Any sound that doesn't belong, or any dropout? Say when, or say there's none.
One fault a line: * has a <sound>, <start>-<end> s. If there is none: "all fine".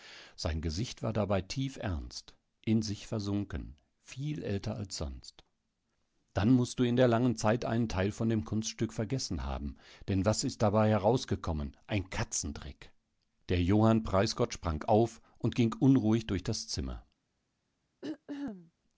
* has a throat clearing, 18.0-18.7 s